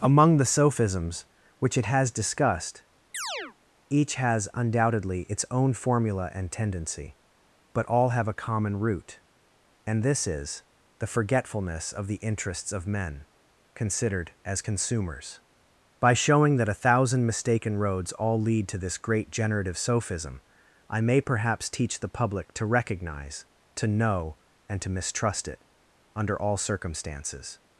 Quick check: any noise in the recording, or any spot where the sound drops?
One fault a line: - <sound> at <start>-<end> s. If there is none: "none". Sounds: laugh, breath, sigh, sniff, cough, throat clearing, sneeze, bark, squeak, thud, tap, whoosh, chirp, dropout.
- chirp at 3.1-3.6 s